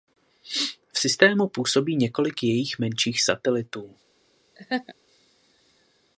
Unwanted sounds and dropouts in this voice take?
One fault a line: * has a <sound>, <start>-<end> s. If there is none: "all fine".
* has a laugh, 4.6-4.9 s